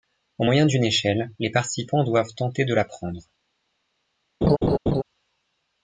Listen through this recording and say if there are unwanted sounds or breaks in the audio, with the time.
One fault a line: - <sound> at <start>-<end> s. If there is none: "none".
- laugh at 4.4-5.0 s